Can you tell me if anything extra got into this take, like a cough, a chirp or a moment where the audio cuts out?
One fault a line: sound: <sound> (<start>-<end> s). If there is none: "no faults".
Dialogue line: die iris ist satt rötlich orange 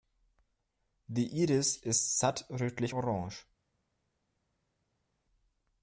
no faults